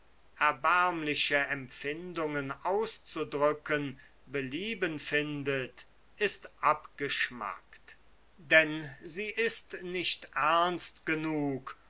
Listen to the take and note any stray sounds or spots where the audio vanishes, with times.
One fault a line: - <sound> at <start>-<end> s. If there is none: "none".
none